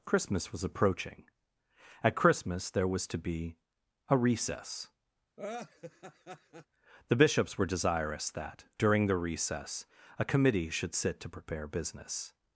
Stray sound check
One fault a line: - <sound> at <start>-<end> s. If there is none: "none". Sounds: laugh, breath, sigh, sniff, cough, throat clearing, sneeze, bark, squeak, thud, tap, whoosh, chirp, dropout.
- laugh at 5.4-6.7 s